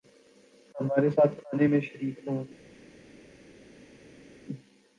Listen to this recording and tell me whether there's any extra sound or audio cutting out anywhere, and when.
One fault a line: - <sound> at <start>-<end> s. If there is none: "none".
none